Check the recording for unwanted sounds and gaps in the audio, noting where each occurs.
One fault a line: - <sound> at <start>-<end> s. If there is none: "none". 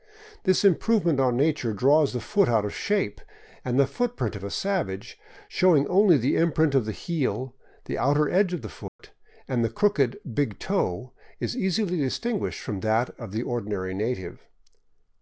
- dropout at 8.9-9.0 s